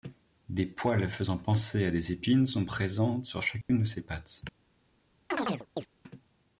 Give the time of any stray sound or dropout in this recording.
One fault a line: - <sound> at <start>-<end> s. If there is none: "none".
- dropout at 3.6-3.7 s
- chirp at 5.3-5.9 s